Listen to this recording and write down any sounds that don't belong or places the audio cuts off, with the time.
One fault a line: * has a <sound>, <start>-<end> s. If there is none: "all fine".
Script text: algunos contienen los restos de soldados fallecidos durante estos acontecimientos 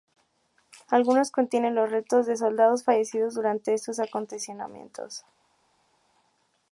all fine